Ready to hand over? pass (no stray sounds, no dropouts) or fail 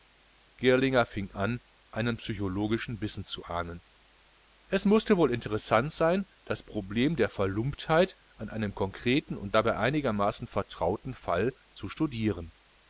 pass